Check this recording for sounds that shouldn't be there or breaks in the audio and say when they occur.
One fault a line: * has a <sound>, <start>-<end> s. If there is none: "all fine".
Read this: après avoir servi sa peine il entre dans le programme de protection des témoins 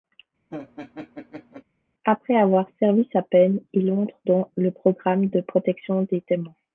* has a laugh, 0.5-1.6 s